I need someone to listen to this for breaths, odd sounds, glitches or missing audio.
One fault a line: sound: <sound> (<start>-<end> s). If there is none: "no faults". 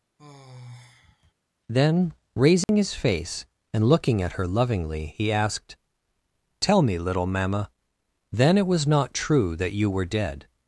sound: sigh (0.2-1.3 s)
sound: dropout (2.6-2.7 s)